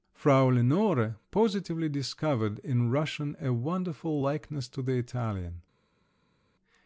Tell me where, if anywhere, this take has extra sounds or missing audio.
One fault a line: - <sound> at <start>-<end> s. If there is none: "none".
none